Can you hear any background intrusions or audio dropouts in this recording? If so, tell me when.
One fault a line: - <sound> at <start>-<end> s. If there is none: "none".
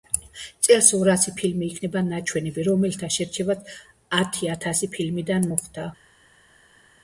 none